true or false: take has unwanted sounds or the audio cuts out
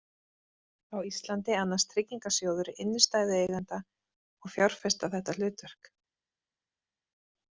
false